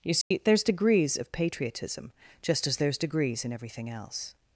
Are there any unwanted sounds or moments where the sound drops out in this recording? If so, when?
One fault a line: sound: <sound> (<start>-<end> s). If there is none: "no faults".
sound: dropout (0.2-0.3 s)